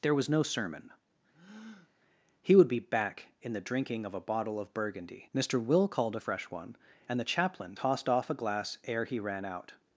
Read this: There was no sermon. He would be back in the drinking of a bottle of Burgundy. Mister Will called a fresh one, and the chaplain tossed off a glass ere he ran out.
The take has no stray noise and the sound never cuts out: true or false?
false